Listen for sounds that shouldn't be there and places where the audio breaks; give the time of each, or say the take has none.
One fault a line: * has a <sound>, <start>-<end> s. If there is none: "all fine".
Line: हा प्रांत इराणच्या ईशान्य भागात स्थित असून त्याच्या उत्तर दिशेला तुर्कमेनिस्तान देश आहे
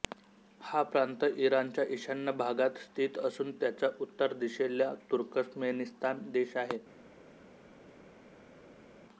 all fine